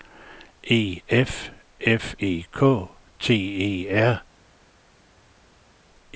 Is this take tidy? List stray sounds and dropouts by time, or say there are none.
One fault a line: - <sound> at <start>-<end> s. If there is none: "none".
none